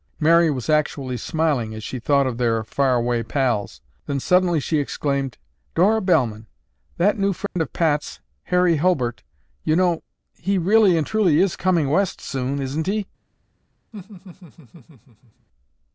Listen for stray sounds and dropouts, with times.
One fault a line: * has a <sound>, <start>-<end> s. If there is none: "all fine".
* has a dropout, 7.5-7.6 s
* has a laugh, 13.9-15.5 s